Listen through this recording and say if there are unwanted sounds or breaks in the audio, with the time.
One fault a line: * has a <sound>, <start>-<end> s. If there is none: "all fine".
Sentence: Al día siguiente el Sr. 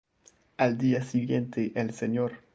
all fine